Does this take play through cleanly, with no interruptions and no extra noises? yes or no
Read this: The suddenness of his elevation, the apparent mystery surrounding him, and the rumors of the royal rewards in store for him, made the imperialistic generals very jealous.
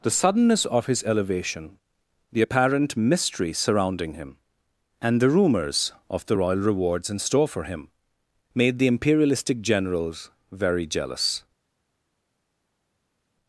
yes